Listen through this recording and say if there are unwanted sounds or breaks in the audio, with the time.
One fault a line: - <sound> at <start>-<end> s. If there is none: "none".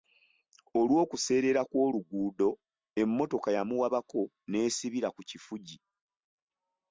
none